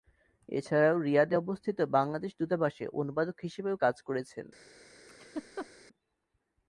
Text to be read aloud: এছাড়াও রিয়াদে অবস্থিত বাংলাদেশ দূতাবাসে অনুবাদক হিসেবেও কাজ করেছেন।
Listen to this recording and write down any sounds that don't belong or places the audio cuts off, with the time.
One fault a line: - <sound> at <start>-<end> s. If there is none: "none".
- laugh at 5.1-5.7 s